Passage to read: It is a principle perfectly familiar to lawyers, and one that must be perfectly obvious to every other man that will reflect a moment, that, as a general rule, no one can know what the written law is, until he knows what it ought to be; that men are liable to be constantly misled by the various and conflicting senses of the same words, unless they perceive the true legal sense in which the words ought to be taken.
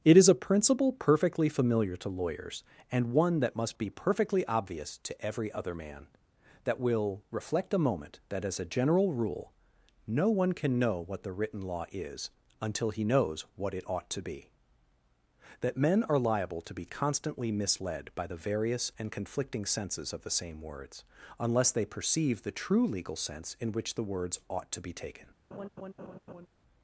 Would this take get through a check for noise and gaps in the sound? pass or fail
fail